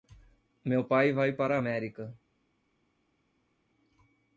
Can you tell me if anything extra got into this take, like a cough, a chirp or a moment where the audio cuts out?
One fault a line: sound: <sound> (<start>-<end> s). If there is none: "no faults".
no faults